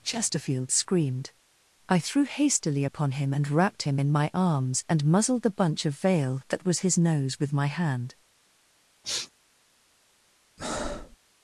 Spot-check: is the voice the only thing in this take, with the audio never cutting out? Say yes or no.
no